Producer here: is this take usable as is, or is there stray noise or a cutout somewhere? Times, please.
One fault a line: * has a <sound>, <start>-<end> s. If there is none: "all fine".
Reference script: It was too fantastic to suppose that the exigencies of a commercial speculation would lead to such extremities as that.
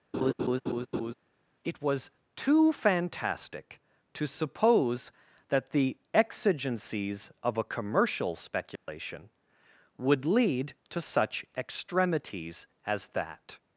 * has a laugh, 0.1-1.1 s
* has a dropout, 8.8-8.9 s